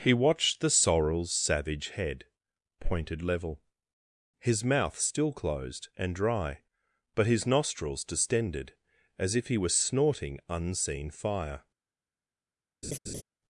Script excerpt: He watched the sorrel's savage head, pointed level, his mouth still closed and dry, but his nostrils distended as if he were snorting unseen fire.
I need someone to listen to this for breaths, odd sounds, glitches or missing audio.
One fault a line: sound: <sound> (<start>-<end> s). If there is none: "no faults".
sound: laugh (12.8-13.2 s)